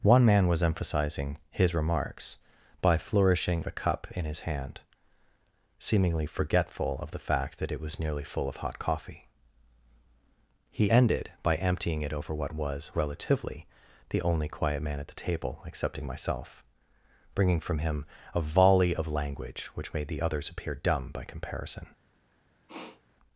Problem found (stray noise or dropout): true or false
true